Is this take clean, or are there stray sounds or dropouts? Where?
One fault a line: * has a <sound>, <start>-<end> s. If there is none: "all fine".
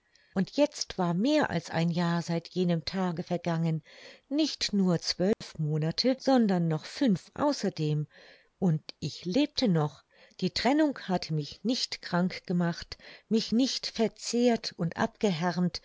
* has a dropout, 5.3-5.4 s